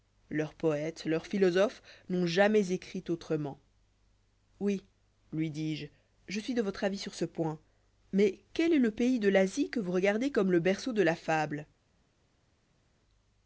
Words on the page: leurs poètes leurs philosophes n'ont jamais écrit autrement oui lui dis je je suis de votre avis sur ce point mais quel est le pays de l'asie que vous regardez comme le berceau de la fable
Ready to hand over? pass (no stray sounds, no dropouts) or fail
pass